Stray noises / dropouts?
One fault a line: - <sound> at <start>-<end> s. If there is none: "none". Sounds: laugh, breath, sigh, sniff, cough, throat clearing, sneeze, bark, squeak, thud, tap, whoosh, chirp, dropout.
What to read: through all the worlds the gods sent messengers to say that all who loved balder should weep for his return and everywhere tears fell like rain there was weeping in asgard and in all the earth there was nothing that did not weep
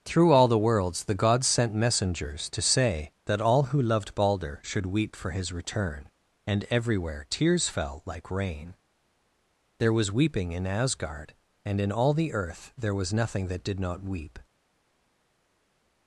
none